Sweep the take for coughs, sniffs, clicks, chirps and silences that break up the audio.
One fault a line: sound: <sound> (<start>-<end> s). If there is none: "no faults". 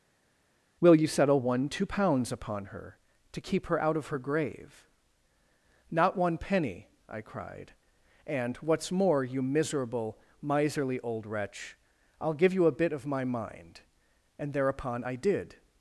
no faults